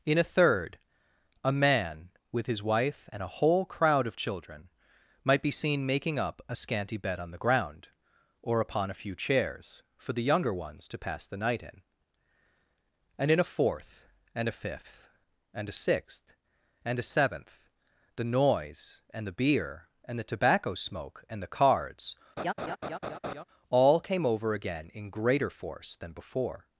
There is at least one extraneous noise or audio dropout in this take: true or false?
true